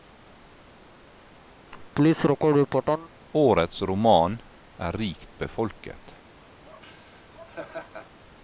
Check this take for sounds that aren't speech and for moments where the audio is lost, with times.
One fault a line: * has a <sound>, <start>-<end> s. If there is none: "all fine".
* has a laugh, 1.7-3.1 s
* has a laugh, 6.6-8.2 s